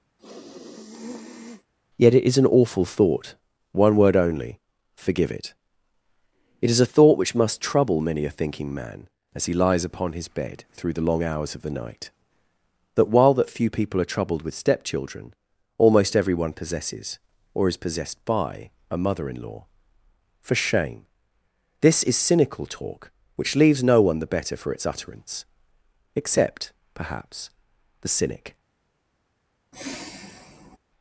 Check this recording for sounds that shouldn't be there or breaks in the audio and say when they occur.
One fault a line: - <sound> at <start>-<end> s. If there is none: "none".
- sniff at 0.2-1.7 s
- sigh at 29.7-30.8 s